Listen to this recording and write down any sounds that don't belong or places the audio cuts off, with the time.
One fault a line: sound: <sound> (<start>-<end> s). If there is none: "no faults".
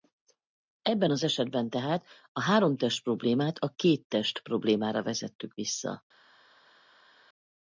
no faults